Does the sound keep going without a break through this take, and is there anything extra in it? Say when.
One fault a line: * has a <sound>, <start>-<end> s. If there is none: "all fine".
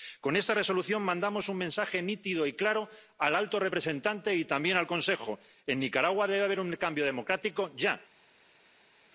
all fine